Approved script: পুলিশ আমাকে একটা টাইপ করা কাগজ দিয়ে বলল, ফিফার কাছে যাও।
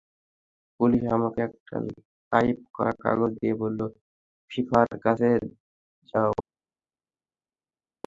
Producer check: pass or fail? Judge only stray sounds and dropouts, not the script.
pass